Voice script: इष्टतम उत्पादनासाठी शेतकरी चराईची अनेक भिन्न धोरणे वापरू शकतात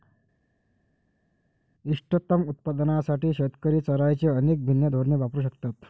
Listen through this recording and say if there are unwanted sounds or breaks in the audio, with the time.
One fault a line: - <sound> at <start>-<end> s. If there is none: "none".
none